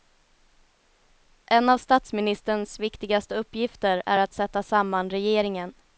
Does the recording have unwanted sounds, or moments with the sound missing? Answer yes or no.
no